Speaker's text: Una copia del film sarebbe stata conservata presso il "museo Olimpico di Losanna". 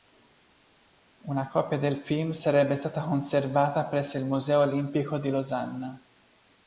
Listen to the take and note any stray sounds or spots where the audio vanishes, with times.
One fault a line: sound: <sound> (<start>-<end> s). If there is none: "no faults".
no faults